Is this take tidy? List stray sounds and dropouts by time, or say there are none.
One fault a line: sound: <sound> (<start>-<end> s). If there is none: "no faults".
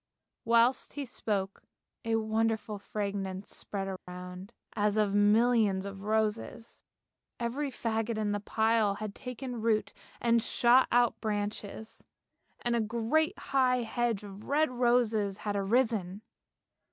sound: dropout (4.0-4.1 s)